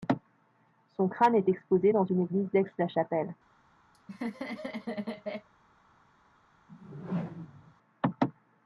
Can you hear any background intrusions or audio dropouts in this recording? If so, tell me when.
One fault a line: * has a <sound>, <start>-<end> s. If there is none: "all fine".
* has a laugh, 3.9-5.5 s
* has a whoosh, 6.7-7.7 s